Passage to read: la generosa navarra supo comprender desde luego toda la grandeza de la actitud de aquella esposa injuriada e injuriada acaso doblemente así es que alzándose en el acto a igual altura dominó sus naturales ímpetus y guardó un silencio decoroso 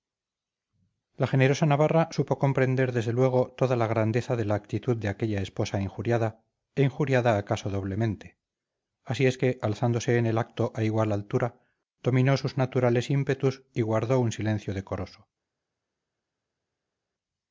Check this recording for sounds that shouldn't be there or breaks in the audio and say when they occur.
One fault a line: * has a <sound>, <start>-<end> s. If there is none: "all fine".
all fine